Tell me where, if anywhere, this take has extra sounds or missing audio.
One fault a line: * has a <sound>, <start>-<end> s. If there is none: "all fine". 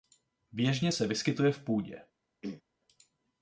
* has a throat clearing, 2.4-2.6 s